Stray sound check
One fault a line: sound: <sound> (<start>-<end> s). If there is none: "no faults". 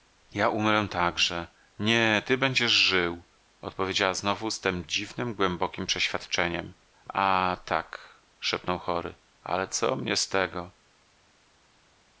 no faults